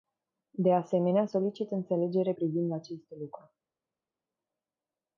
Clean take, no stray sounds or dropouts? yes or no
yes